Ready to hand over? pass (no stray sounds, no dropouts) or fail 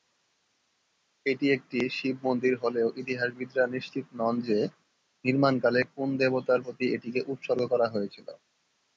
pass